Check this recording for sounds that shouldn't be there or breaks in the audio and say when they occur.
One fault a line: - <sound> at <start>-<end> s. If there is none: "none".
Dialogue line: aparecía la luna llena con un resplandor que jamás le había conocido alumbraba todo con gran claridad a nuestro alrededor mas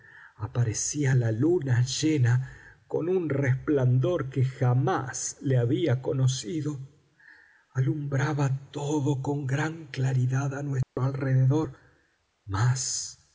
- dropout at 10.8-11.0 s